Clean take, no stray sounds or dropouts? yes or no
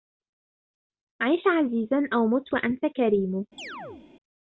no